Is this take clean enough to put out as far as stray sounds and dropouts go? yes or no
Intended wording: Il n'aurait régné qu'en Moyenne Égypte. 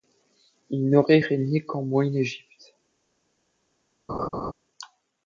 no